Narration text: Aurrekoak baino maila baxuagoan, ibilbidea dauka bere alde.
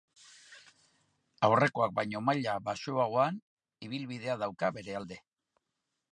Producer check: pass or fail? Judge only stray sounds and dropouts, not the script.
pass